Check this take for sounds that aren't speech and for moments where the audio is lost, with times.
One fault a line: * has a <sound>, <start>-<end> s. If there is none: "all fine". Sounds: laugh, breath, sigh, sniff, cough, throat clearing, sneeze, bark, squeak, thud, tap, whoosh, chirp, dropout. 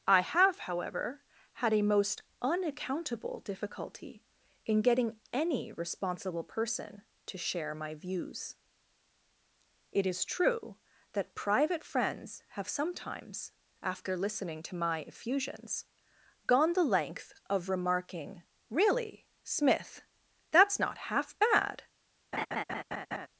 * has a laugh, 22.3-23.3 s